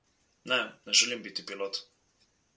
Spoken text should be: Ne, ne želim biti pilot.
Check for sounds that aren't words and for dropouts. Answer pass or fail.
pass